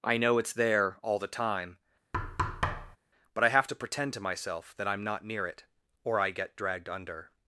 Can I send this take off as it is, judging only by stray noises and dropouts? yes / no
no